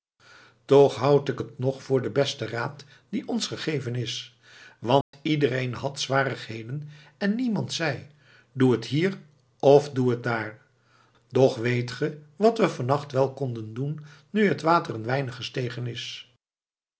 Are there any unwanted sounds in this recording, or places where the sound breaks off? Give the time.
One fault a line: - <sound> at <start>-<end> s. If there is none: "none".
- dropout at 5.0-5.1 s